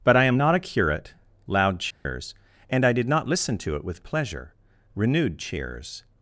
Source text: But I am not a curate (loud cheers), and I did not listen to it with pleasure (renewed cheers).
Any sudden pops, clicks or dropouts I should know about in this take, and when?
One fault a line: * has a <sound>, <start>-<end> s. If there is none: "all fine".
* has a dropout, 1.9-2.1 s